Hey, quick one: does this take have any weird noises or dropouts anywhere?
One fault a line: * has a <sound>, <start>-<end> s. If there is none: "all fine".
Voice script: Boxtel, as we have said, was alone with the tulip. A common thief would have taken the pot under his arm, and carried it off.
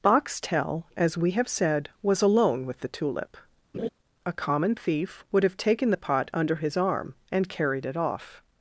* has a laugh, 3.7-3.9 s